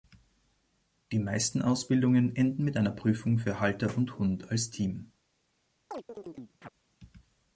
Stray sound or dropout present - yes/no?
yes